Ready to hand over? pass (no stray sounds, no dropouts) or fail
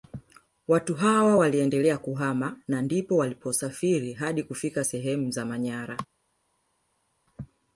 pass